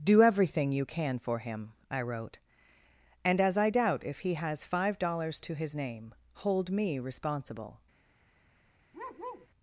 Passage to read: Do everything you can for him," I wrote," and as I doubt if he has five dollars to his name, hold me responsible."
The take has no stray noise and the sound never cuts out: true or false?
false